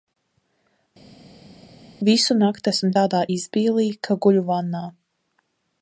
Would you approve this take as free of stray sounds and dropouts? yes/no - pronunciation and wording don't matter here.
yes